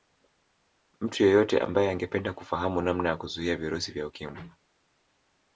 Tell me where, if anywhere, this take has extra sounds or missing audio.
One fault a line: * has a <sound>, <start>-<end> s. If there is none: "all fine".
all fine